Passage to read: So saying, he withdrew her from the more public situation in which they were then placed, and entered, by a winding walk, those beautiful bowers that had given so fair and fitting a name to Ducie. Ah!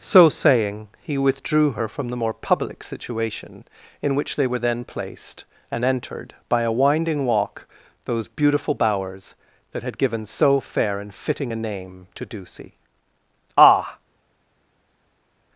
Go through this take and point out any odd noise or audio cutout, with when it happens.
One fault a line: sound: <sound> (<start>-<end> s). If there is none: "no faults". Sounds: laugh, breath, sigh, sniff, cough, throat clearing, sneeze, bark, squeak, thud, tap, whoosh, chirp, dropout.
no faults